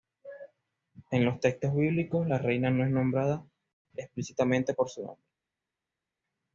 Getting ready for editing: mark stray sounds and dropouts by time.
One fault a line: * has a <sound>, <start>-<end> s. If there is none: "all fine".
all fine